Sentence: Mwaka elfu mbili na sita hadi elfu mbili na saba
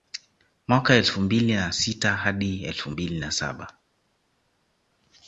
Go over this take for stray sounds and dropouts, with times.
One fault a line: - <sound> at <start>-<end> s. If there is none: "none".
none